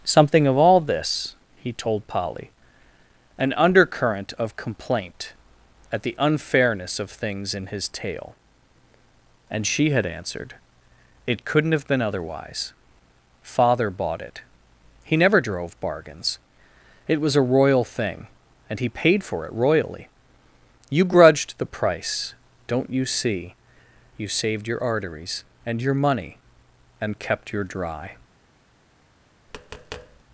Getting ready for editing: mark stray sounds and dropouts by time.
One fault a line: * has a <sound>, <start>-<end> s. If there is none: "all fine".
* has a tap, 29.5-30.2 s